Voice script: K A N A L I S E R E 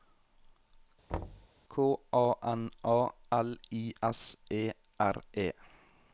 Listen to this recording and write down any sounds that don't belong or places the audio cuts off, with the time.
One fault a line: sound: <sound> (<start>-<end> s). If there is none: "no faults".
sound: thud (1.1-1.5 s)